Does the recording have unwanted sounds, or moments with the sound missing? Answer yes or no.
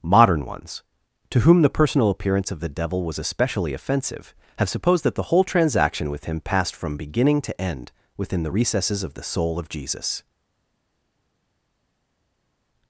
no